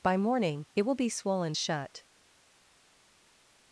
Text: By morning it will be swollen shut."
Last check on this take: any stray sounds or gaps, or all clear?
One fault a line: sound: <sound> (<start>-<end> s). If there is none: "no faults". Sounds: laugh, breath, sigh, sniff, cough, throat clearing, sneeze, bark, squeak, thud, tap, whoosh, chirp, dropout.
no faults